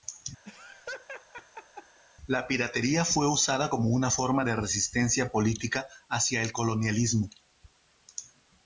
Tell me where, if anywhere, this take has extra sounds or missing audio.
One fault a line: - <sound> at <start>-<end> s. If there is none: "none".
- laugh at 0.5-2.0 s